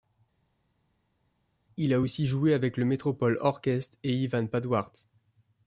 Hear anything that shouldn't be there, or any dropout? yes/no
no